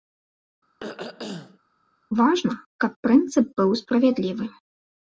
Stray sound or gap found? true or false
true